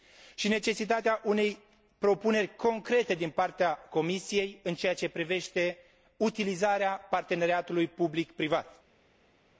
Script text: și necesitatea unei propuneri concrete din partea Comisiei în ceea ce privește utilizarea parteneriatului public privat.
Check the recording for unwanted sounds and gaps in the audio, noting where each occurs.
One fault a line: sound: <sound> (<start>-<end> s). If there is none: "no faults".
no faults